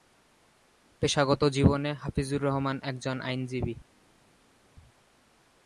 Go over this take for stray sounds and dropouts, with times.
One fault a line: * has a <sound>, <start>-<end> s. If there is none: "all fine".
all fine